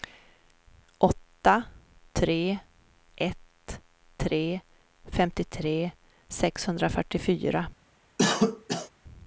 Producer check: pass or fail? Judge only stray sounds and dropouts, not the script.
fail